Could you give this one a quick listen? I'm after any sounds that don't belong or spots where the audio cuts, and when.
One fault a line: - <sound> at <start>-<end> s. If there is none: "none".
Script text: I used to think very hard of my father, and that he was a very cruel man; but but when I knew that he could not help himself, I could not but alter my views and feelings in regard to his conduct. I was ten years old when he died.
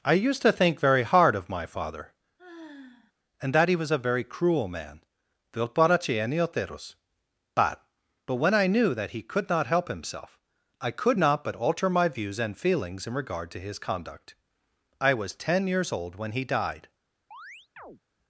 - sigh at 2.4-3.1 s
- chirp at 17.3-18.0 s